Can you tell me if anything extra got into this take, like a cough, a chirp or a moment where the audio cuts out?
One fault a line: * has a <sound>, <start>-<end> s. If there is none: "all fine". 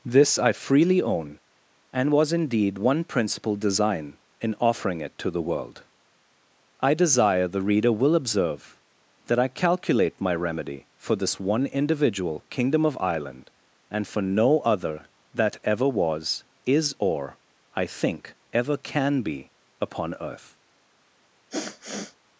* has a sniff, 21.5-22.2 s